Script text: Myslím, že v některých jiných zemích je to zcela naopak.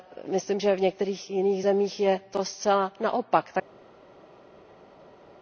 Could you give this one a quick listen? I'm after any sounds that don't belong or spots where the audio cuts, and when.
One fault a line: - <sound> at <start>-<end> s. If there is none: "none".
none